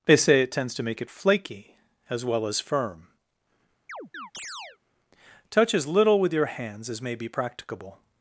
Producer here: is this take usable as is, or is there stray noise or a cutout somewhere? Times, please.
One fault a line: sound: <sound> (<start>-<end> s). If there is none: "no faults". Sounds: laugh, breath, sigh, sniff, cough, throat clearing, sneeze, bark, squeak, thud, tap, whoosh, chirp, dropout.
sound: chirp (3.9-4.8 s)